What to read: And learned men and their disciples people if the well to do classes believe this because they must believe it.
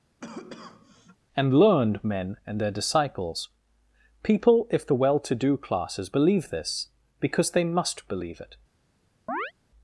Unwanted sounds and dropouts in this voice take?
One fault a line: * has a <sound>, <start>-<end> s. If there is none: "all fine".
* has a cough, 0.2-1.2 s
* has a chirp, 9.3-9.5 s